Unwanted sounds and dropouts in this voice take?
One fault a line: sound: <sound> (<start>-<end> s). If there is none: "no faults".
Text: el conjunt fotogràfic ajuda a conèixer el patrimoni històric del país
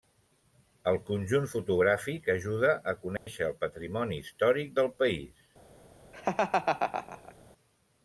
sound: dropout (3.2-3.3 s)
sound: laugh (6.1-7.3 s)